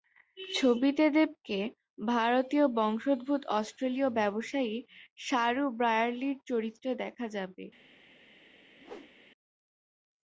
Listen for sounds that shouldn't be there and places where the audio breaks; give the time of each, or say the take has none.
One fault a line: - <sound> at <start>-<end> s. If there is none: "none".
- whoosh at 8.8-9.1 s